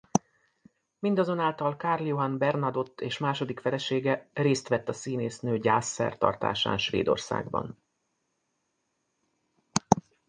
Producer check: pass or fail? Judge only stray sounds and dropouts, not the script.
pass